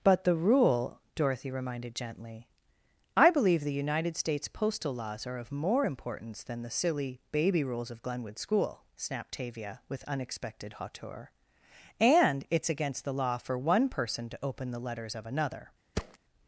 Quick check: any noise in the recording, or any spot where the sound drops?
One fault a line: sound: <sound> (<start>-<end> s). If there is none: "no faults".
sound: thud (15.9-16.2 s)